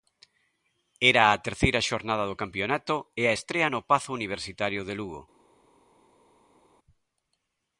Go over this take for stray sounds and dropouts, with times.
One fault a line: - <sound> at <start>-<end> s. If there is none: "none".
none